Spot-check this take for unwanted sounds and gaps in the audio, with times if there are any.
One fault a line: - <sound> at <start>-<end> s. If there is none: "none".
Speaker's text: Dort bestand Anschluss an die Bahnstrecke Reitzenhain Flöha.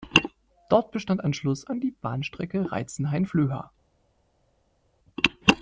none